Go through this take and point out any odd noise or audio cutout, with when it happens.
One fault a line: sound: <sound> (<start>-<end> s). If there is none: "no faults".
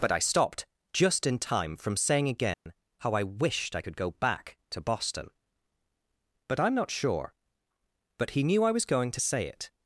sound: dropout (2.5-2.7 s)